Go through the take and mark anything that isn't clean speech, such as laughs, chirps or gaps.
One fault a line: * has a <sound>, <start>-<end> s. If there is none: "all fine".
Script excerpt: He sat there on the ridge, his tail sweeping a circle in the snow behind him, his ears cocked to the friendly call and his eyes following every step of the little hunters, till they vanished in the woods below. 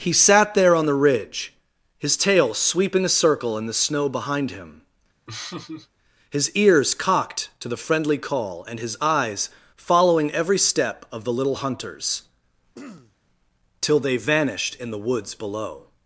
* has a laugh, 5.3-5.9 s
* has a throat clearing, 12.7-13.2 s